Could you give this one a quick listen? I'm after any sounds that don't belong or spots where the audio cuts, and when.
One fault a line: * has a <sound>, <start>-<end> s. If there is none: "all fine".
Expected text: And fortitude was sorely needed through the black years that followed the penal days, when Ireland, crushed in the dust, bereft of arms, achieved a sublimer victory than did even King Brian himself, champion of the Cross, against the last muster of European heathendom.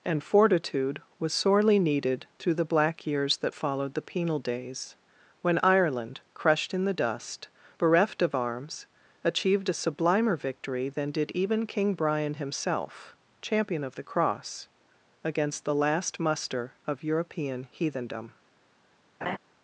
* has a laugh, 19.2-19.4 s